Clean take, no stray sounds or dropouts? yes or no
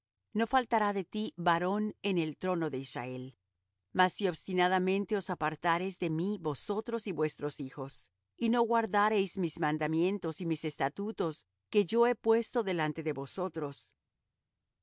yes